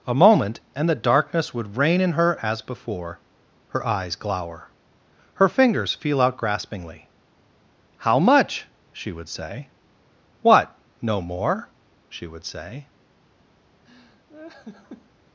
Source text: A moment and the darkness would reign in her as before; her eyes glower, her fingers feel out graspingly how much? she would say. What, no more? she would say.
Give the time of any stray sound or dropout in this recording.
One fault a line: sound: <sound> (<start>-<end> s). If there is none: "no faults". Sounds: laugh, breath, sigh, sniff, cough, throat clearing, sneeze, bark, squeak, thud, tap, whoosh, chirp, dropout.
sound: laugh (13.9-15.1 s)